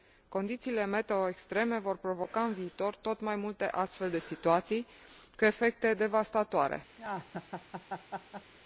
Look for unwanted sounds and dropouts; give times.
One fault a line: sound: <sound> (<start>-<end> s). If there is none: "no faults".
sound: laugh (7.0-8.5 s)